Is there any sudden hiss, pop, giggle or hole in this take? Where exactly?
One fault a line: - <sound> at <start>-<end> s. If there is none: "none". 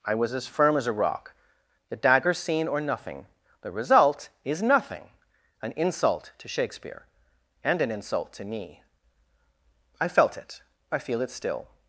none